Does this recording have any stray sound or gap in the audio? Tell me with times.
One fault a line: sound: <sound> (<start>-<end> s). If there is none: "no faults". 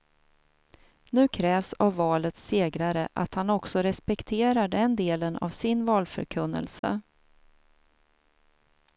sound: dropout (6.8-6.8 s)